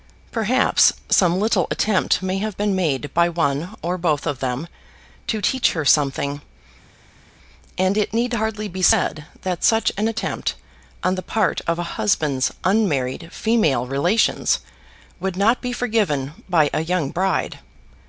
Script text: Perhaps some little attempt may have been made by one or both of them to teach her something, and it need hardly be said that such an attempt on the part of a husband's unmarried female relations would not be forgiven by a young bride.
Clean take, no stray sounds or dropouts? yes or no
yes